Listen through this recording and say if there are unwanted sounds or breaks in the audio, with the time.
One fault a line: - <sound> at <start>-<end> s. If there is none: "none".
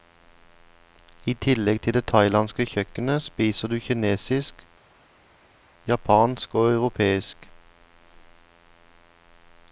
none